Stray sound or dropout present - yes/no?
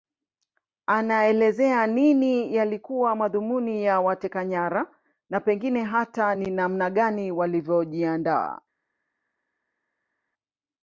no